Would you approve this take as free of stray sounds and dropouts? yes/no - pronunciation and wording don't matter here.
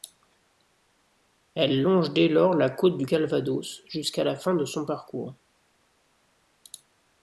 yes